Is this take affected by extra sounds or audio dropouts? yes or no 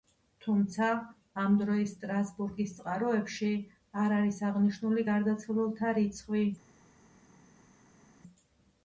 no